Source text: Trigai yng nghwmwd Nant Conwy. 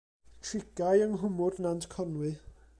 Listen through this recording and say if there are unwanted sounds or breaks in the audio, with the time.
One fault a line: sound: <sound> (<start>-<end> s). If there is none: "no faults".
no faults